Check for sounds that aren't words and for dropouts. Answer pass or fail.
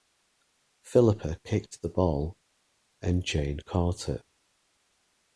pass